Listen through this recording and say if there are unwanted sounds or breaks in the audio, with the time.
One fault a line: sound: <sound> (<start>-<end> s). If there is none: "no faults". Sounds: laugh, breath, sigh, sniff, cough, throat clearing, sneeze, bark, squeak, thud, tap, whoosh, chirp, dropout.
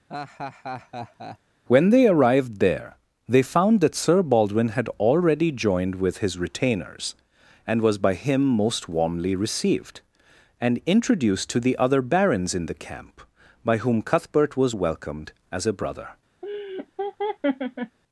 sound: laugh (0.1-1.4 s)
sound: laugh (16.4-18.0 s)